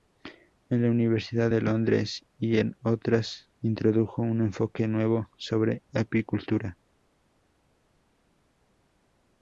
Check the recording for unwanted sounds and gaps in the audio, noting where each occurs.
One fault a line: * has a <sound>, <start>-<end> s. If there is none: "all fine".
all fine